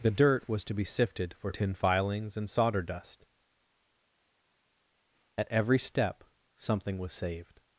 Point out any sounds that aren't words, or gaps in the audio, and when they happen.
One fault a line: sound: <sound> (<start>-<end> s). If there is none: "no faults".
no faults